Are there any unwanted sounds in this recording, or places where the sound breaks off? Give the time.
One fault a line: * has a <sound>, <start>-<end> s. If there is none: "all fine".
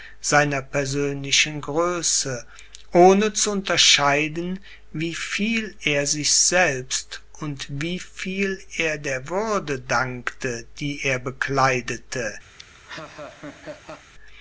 * has a laugh, 12.6-14.1 s